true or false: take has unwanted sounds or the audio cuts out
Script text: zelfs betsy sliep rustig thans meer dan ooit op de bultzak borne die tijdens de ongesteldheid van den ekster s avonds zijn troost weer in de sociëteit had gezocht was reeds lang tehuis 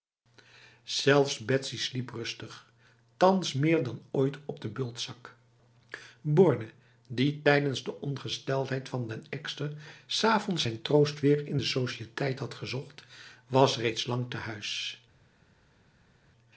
false